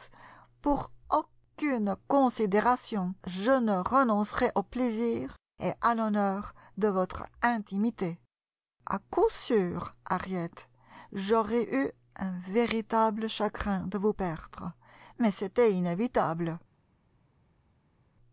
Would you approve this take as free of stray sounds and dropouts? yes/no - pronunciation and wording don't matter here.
yes